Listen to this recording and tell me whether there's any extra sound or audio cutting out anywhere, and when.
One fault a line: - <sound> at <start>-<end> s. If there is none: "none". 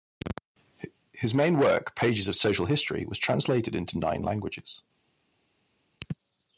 none